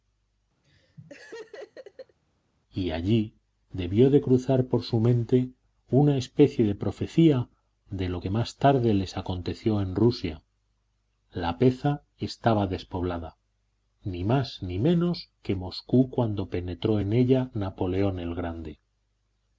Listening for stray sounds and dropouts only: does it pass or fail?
fail